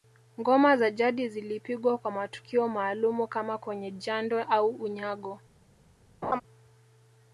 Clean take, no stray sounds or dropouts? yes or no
no